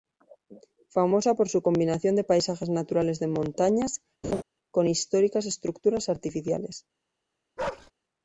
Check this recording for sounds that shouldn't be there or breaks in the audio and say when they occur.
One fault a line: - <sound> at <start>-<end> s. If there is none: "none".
- laugh at 4.2-4.4 s
- bark at 7.6-7.9 s